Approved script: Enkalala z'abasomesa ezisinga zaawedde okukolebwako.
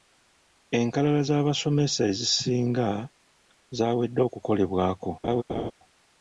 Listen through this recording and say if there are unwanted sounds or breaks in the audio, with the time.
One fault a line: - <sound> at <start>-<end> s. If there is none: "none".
- laugh at 5.2-5.7 s